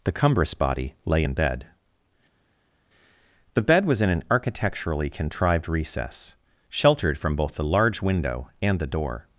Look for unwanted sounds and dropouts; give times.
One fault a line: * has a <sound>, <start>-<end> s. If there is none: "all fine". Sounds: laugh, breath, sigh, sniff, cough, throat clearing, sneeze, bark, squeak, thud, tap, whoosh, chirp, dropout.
all fine